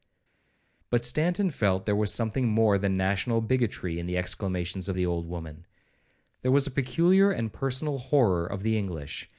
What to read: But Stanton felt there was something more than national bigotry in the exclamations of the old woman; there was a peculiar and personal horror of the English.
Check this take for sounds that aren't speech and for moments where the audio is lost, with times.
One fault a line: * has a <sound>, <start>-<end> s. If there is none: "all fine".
all fine